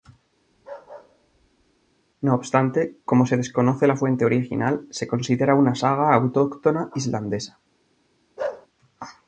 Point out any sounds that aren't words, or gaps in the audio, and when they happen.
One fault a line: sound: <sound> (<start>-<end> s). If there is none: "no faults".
sound: bark (0.5-1.9 s)
sound: bark (8.4-8.7 s)